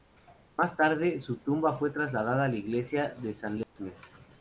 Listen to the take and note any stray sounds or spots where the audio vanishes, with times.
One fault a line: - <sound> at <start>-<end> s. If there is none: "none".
- dropout at 3.6-3.8 s